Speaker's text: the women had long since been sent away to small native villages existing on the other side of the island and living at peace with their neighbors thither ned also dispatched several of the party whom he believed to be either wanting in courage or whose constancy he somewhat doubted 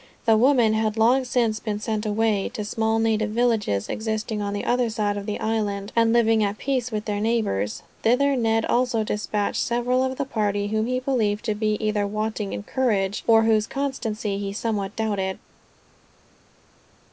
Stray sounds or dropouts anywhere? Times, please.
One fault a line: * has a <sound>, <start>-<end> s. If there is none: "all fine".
all fine